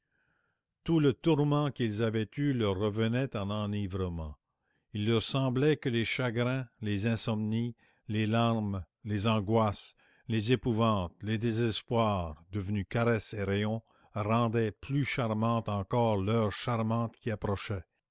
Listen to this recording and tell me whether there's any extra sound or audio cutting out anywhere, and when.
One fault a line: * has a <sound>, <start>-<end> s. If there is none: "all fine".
all fine